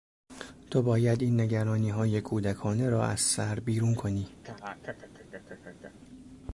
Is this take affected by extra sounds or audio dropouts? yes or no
yes